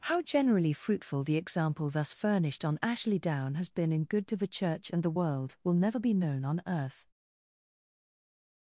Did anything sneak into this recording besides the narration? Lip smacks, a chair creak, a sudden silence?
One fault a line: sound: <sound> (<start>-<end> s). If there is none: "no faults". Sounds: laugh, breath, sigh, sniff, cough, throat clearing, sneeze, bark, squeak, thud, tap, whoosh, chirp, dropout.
no faults